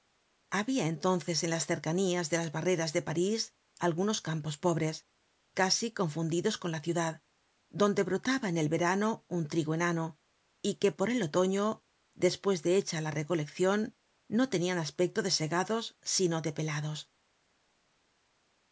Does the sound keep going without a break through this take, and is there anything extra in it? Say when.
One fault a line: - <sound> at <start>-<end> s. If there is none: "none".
none